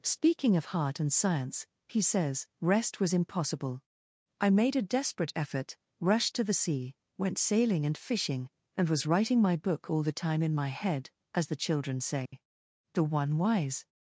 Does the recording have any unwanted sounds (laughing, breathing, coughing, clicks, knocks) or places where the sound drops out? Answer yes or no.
yes